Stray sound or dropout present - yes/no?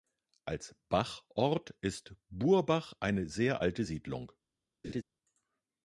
yes